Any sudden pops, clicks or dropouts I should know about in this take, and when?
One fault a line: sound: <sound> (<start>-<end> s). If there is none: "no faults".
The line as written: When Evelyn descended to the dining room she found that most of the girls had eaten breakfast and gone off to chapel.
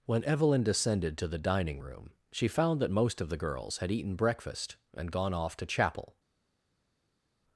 no faults